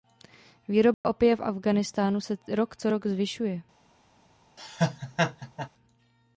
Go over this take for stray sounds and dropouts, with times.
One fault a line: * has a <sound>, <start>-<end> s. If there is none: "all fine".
* has a dropout, 0.9-1.0 s
* has a laugh, 4.6-5.7 s